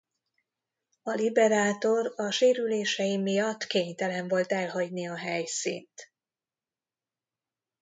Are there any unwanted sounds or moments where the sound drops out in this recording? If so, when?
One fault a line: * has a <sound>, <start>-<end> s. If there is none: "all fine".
all fine